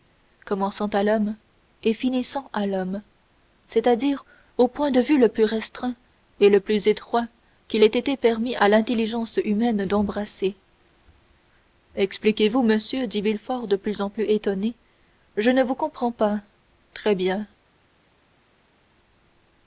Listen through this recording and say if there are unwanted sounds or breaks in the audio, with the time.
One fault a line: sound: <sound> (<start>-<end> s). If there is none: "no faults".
no faults